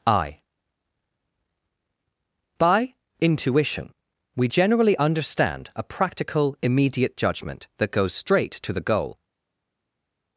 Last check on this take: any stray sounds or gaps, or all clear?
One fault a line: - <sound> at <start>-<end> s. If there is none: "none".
none